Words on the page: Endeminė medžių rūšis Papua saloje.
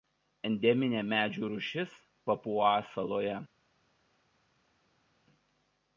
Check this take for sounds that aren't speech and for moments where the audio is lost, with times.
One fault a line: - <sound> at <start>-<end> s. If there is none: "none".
none